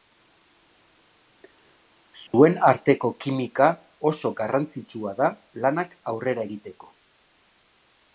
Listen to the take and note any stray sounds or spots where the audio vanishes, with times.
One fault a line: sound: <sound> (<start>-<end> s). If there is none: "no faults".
sound: dropout (2.3-2.3 s)